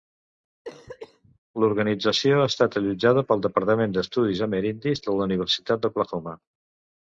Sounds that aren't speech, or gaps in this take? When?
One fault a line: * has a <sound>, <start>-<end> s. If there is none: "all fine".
* has a cough, 0.6-1.4 s